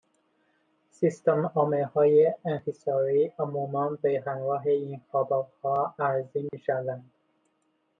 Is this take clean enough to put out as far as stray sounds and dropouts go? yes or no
no